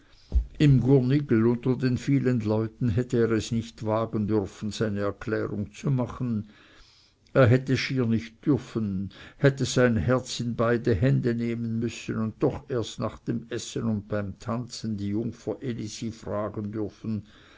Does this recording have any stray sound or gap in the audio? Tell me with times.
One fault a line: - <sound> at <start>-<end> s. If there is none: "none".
none